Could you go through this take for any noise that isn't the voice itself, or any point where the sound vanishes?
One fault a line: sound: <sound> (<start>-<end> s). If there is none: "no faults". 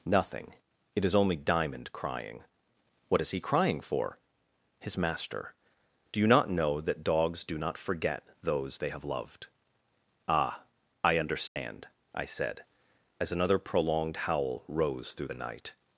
sound: dropout (11.5-11.6 s)